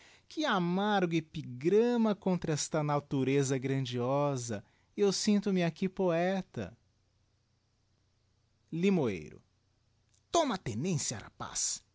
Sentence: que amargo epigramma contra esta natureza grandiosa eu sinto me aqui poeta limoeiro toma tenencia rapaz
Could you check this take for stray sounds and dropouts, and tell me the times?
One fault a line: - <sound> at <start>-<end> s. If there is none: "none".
none